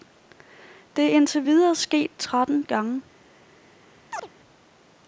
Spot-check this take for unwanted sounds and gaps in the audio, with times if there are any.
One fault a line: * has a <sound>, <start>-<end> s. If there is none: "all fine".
* has a chirp, 4.1-4.3 s